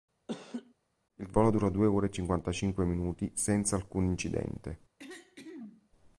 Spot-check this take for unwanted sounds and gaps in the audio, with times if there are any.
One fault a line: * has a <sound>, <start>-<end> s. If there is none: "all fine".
* has a laugh, 0.3-0.7 s
* has a throat clearing, 5.0-5.9 s